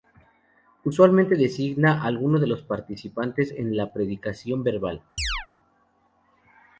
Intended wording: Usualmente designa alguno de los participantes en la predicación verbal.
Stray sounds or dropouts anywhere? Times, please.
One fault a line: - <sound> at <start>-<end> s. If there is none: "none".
- chirp at 5.2-5.5 s